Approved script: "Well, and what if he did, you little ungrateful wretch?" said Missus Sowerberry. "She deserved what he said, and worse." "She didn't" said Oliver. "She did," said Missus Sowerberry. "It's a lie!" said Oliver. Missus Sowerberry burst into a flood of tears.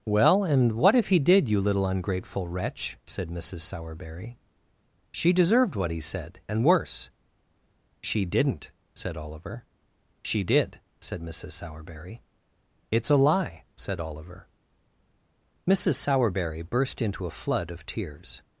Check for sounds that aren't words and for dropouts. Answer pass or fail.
pass